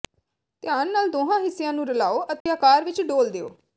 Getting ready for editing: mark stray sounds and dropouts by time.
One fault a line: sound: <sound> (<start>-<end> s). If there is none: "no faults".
sound: dropout (2.4-2.5 s)